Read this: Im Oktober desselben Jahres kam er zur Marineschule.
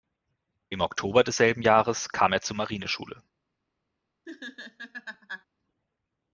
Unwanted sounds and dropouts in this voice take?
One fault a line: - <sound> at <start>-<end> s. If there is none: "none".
- laugh at 4.3-5.5 s